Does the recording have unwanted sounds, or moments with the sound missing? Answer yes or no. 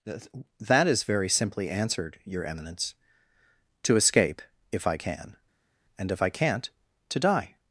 no